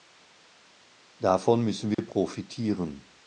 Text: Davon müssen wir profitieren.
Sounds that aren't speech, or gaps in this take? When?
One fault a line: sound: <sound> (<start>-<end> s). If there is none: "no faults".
sound: dropout (1.9-2.0 s)